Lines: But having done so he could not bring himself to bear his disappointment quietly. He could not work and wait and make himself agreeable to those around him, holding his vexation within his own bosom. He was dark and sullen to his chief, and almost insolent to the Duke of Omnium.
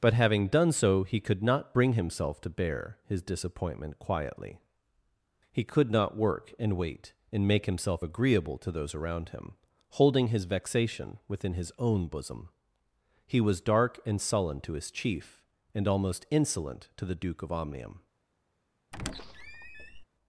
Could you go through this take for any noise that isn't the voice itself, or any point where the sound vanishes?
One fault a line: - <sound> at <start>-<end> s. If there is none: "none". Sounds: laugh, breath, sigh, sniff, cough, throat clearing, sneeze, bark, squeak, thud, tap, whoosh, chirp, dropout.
- squeak at 18.9-20.0 s